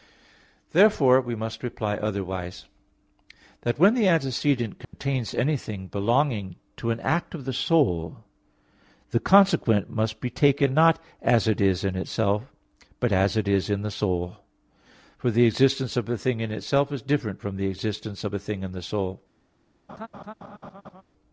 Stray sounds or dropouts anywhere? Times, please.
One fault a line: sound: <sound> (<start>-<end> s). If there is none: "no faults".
sound: dropout (4.8-4.9 s)
sound: laugh (19.9-21.0 s)